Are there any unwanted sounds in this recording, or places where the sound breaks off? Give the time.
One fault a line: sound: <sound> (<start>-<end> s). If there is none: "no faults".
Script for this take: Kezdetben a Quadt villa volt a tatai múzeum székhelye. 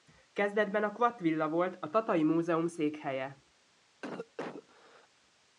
sound: cough (4.0-5.1 s)